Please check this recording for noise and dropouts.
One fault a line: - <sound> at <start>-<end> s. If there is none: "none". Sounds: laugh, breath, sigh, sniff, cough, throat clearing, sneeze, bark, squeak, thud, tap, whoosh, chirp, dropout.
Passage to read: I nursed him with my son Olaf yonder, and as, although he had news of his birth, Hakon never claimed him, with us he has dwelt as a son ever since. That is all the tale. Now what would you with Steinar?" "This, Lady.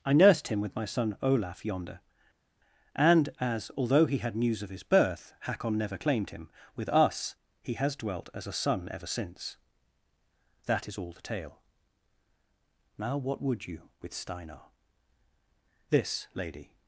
none